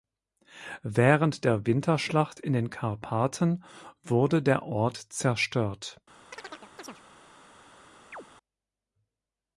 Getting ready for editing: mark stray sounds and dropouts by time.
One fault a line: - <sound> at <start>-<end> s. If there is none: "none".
- chirp at 6.3-7.0 s
- chirp at 8.1-8.2 s